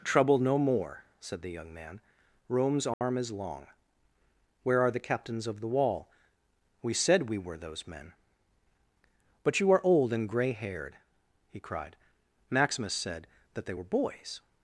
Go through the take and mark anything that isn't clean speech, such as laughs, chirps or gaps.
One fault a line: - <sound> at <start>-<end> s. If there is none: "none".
- dropout at 2.9-3.0 s